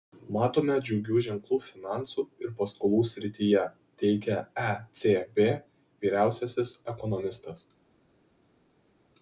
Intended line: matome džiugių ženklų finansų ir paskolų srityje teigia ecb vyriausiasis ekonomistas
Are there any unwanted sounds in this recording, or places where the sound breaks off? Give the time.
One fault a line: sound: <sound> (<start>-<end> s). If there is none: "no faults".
no faults